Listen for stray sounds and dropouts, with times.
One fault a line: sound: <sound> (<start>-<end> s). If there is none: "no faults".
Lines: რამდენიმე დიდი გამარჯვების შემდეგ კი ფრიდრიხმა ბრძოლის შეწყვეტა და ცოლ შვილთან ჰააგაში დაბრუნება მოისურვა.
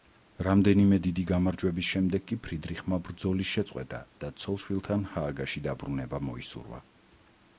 no faults